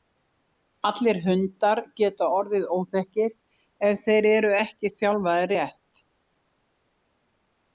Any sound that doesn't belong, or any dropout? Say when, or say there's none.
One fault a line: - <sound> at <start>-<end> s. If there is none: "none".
none